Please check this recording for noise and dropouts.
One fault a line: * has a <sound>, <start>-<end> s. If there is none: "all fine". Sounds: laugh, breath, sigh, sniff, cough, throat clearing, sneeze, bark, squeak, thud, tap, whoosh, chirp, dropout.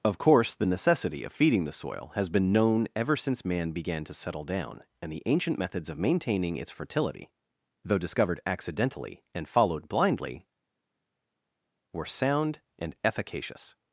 all fine